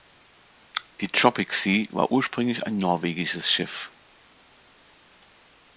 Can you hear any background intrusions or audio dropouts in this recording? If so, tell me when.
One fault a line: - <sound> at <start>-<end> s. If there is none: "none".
none